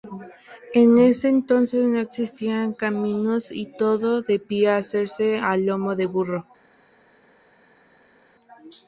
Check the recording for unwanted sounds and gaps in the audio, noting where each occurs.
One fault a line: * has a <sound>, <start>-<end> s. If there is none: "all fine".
all fine